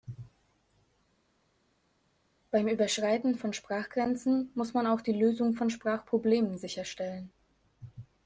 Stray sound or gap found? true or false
false